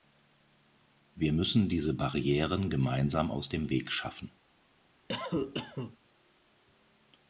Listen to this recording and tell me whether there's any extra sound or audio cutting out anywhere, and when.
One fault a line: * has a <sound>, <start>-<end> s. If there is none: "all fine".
* has a cough, 5.1-6.0 s